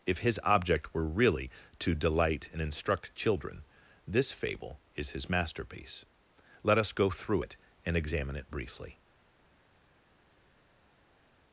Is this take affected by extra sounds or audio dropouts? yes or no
no